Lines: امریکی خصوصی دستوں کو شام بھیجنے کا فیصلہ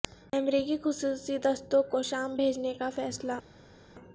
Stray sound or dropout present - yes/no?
no